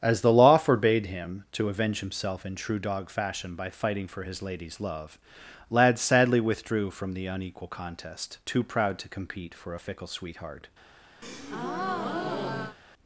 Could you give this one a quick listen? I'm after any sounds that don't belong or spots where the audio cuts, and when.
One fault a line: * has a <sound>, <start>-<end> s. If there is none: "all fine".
* has a breath, 11.2-12.8 s